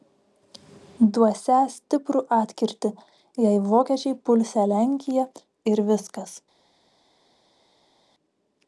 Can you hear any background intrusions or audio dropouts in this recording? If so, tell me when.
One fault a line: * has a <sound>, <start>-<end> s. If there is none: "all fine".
all fine